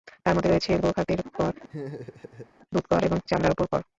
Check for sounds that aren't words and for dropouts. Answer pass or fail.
fail